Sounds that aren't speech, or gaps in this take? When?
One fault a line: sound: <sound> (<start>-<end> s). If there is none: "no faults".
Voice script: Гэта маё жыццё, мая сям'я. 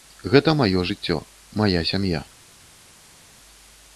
no faults